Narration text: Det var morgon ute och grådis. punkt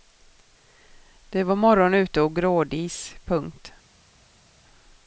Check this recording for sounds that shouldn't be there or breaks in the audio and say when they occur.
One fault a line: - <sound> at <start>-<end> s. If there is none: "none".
none